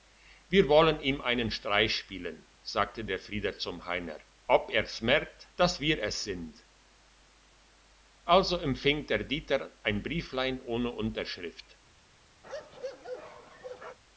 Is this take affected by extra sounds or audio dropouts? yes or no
yes